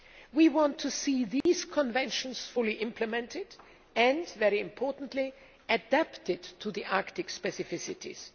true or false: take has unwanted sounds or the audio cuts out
true